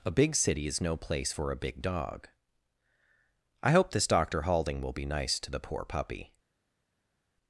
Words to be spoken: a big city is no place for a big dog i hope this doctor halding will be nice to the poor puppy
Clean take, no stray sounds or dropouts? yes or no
yes